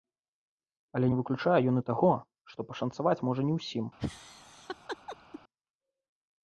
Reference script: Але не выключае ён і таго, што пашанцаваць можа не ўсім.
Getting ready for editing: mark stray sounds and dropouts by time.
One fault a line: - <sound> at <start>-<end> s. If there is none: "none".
- laugh at 4.0-5.4 s